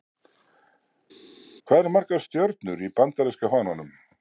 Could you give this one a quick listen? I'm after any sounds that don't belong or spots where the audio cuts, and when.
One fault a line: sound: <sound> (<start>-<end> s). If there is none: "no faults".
no faults